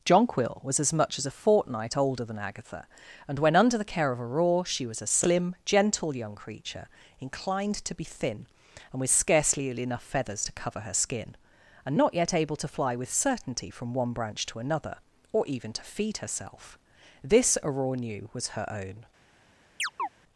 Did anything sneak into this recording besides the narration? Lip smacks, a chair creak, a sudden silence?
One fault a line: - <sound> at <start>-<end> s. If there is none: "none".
- chirp at 19.8-20.1 s